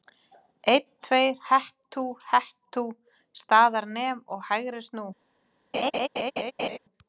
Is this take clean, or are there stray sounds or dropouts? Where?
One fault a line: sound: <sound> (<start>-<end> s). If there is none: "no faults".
sound: laugh (5.7-6.8 s)